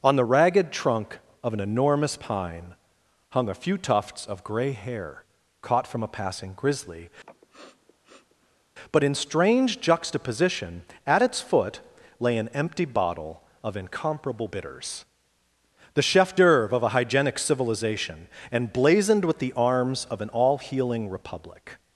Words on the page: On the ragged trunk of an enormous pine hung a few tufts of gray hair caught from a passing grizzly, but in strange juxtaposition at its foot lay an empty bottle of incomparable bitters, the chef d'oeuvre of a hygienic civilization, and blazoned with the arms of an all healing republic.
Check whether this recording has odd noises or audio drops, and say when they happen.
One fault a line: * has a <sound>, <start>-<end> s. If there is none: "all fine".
* has a sniff, 7.2-8.7 s